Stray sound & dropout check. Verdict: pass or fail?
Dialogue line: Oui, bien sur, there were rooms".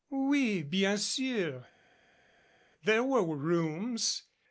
pass